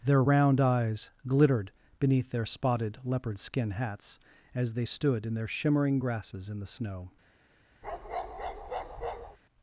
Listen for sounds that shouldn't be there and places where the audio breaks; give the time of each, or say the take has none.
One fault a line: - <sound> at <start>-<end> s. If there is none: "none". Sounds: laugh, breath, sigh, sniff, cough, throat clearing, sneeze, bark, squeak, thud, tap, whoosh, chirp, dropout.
- bark at 7.8-9.4 s